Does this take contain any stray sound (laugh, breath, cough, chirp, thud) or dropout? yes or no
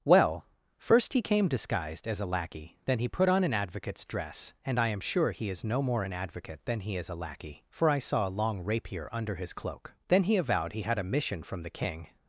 no